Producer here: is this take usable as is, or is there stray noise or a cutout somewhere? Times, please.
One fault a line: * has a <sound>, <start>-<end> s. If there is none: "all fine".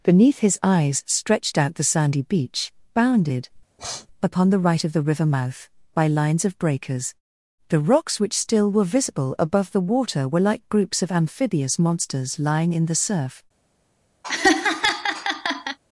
* has a sniff, 3.8-4.1 s
* has a laugh, 14.2-15.8 s